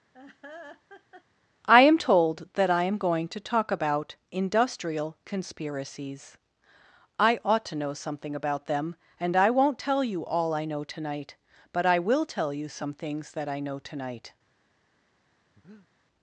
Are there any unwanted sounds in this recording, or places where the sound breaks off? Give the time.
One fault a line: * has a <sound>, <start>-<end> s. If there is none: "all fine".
* has a laugh, 0.1-1.2 s
* has a breath, 15.6-15.9 s